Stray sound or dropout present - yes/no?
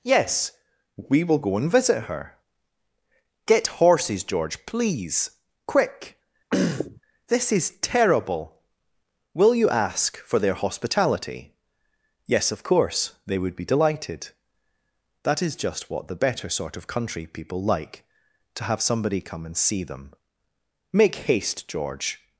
yes